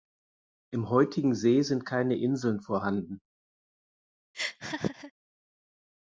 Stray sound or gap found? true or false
true